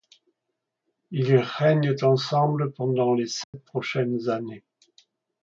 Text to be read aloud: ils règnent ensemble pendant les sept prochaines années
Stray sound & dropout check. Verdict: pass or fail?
fail